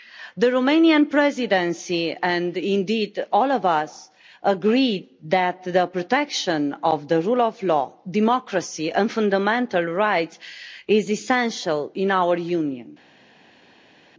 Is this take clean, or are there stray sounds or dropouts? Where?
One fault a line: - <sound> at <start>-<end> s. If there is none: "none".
none